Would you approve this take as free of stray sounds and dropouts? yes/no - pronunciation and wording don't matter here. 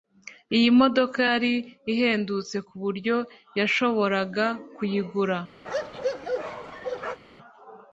no